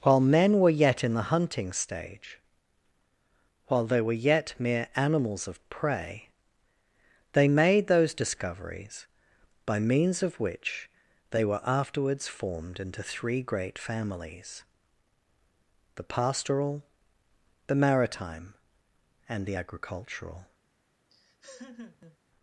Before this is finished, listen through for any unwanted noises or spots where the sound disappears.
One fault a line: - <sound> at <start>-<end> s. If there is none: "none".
- laugh at 21.1-22.2 s